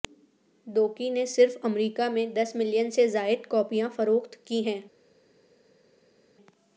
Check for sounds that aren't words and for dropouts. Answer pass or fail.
pass